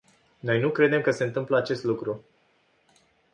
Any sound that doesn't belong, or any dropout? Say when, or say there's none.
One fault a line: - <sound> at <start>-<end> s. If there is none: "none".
none